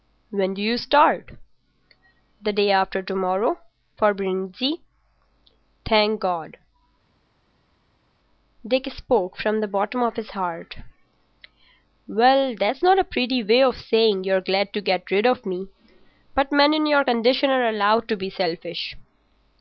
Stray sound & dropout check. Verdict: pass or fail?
pass